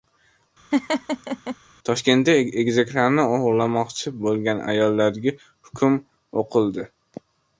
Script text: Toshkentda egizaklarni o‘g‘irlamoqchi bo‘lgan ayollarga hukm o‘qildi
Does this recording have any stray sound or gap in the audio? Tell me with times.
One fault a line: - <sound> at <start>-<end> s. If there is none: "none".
- laugh at 0.7-1.6 s